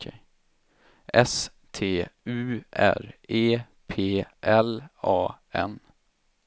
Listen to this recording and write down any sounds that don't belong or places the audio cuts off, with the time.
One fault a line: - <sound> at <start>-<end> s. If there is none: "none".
none